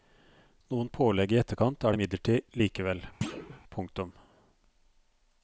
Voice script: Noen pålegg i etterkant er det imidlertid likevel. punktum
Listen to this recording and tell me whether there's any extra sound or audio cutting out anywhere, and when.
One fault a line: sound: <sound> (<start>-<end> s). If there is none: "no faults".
sound: thud (3.2-3.6 s)